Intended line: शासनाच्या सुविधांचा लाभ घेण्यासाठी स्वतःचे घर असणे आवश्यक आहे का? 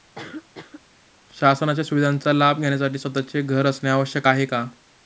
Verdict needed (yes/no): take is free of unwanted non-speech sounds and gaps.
no